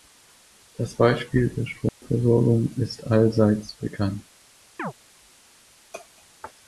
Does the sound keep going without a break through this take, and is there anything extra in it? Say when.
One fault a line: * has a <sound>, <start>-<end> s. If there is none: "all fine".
* has a dropout, 1.9-2.0 s
* has a chirp, 4.8-4.9 s